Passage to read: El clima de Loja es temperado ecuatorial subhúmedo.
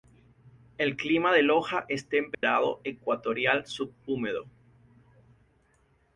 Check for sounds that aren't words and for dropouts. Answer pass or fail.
fail